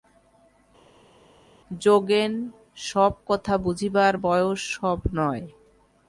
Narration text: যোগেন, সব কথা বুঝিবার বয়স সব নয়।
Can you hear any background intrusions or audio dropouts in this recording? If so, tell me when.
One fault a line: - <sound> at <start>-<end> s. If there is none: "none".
none